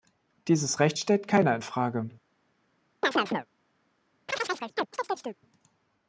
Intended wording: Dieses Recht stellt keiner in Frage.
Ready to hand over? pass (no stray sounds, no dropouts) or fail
fail